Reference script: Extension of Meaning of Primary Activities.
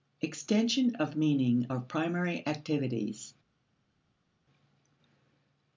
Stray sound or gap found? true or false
false